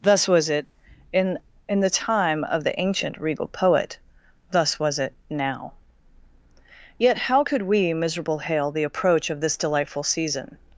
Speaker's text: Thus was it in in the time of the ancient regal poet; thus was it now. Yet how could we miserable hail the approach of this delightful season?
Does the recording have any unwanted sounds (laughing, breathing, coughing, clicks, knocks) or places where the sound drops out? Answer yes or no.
no